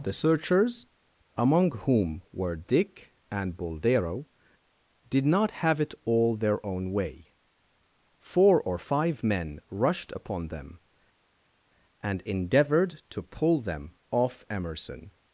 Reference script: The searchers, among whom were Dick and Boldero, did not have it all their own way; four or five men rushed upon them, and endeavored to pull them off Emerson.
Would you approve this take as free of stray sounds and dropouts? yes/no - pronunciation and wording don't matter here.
yes